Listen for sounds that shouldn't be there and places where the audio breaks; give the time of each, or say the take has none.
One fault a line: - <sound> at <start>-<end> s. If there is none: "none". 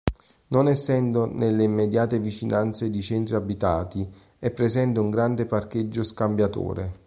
none